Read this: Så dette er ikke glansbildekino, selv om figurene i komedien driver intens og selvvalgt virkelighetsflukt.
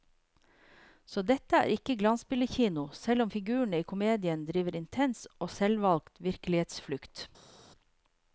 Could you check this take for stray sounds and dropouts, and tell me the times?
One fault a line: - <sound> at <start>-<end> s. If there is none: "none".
none